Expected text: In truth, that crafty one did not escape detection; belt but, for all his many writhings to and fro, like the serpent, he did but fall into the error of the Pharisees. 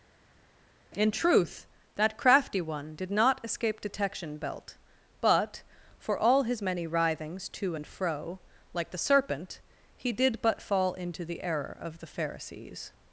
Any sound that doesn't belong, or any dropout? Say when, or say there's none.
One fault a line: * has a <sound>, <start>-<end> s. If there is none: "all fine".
all fine